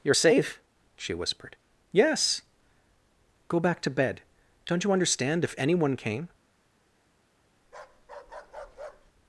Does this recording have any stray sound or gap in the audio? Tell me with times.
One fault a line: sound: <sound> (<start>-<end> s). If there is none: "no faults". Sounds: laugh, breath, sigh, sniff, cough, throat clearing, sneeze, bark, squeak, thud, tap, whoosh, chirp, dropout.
sound: bark (7.6-9.1 s)